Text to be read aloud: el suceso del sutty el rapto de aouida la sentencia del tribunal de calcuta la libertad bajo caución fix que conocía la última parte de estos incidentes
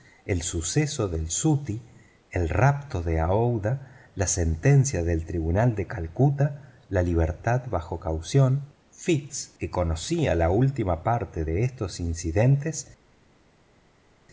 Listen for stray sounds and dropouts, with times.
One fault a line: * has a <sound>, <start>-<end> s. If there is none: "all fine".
all fine